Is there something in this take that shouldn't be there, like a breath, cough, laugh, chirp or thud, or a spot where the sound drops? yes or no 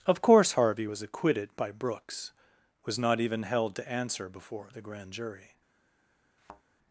yes